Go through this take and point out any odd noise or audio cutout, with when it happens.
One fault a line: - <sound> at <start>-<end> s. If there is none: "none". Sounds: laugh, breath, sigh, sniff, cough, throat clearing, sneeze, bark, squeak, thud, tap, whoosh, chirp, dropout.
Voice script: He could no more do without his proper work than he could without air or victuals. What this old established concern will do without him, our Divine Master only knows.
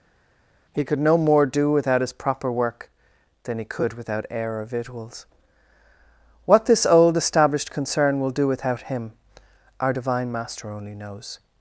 none